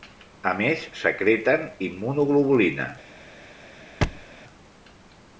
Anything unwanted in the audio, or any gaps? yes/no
yes